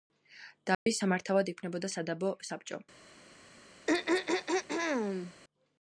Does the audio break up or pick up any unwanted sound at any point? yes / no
yes